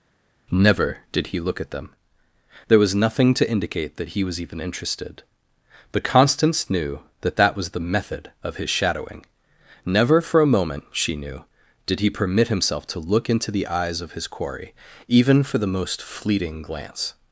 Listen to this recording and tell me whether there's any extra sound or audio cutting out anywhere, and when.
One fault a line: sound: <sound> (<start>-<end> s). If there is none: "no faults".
no faults